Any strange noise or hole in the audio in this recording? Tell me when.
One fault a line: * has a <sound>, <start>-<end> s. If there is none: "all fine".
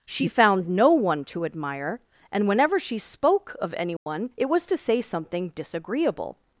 * has a dropout, 4.0-4.1 s